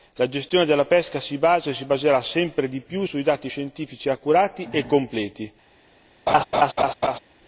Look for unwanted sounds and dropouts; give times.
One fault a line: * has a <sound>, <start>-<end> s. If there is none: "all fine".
* has a laugh, 6.3-7.2 s